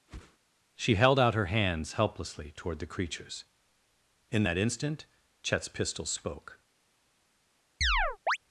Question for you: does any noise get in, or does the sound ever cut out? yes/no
yes